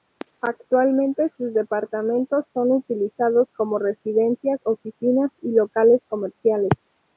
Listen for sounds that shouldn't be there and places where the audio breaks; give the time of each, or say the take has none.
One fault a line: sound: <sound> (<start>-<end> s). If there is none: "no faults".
no faults